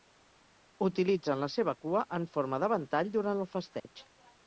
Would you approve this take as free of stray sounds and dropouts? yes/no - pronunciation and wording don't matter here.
no